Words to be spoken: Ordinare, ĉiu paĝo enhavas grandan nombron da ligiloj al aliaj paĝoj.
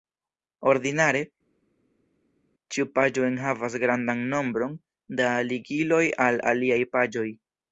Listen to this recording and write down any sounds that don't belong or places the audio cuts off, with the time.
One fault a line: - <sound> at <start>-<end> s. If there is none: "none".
none